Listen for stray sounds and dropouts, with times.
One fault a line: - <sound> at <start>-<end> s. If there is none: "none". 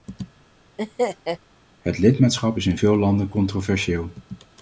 - laugh at 0.8-1.4 s